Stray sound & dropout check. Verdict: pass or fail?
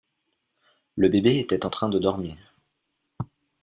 pass